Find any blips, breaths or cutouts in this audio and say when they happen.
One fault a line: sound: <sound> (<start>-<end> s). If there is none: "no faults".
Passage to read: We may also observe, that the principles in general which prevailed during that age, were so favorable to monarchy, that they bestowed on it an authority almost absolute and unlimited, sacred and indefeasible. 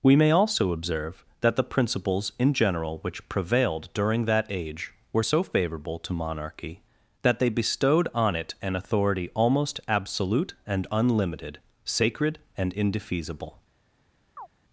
sound: chirp (14.4-14.5 s)